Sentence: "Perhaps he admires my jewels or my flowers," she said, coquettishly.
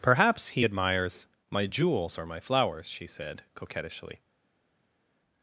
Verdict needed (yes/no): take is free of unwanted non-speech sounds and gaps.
yes